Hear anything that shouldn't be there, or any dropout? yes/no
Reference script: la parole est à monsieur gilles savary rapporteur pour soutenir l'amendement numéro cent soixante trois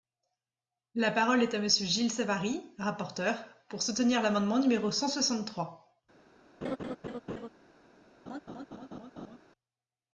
yes